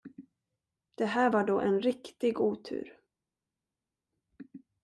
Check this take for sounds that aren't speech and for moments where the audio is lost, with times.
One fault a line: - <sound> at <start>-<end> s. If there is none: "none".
none